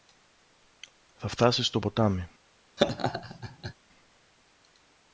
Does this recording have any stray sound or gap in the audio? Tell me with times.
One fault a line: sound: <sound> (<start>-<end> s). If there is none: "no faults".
sound: laugh (2.8-3.7 s)